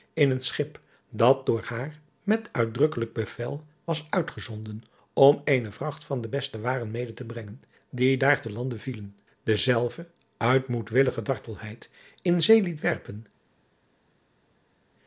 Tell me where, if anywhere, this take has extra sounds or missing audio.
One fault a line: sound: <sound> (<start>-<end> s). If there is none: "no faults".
no faults